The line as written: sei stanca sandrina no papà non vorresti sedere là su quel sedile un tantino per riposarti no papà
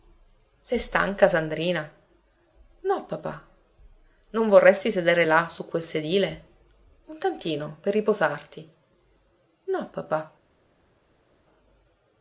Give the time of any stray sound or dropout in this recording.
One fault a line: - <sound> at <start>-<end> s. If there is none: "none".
none